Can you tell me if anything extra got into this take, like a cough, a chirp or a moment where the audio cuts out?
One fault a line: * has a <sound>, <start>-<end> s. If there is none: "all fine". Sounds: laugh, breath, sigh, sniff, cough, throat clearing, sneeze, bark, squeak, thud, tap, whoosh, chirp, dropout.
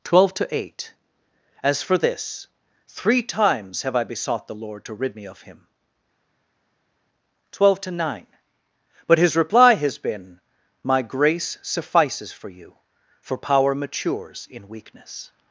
all fine